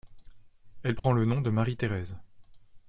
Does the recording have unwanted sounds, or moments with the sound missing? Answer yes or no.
yes